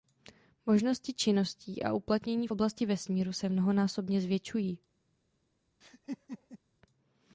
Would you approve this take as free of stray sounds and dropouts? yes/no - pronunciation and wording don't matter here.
no